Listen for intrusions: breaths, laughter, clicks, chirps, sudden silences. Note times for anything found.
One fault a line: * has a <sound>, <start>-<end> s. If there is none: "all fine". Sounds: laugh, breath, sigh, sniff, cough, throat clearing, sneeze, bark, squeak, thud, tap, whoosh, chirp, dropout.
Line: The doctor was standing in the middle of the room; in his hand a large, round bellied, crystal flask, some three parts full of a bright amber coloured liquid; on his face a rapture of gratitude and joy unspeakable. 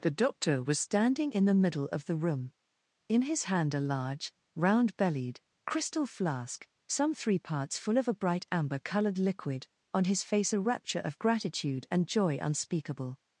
all fine